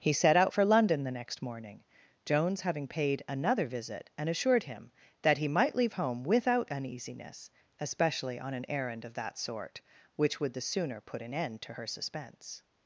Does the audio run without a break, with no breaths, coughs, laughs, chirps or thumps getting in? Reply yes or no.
yes